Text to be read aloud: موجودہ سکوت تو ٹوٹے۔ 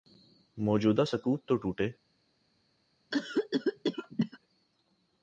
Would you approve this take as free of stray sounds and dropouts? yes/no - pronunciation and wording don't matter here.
no